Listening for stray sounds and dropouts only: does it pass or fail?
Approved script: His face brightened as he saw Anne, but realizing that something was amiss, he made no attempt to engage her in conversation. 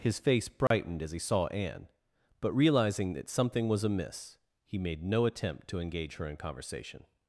fail